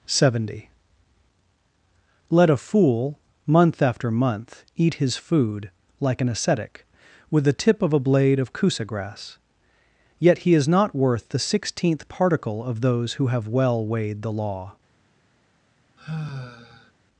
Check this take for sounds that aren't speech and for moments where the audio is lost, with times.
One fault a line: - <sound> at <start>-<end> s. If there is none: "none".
- sigh at 16.0-16.9 s